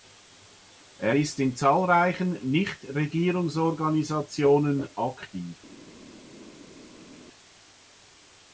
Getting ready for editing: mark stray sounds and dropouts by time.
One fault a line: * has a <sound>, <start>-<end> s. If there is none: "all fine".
all fine